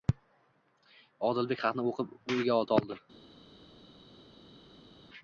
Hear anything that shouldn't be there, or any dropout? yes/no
no